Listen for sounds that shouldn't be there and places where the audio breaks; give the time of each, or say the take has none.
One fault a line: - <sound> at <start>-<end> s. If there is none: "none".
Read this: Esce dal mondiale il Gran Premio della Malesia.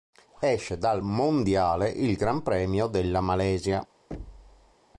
- thud at 4.1-4.8 s